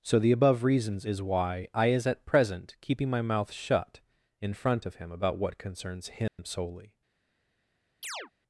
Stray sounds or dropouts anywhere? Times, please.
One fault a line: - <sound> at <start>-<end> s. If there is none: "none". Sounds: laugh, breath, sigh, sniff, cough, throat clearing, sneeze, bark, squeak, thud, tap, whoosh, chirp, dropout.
- dropout at 6.3-6.4 s
- chirp at 8.0-8.3 s